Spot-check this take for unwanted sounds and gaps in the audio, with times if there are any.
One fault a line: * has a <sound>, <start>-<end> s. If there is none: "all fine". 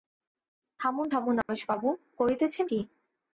* has a dropout, 1.4-1.5 s